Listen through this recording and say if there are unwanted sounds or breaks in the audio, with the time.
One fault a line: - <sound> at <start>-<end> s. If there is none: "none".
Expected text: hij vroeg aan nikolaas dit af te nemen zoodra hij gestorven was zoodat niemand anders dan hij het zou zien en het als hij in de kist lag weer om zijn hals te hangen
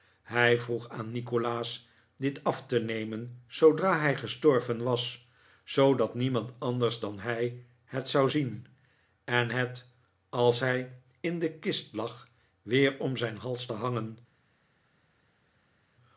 none